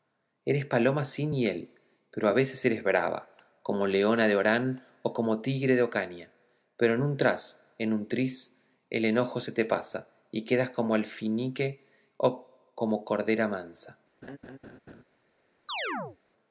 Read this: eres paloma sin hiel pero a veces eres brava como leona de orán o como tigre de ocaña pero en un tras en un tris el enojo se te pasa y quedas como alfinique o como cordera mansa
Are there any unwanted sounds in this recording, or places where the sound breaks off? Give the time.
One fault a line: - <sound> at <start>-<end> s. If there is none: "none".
- laugh at 14.2-15.0 s
- chirp at 15.7-16.2 s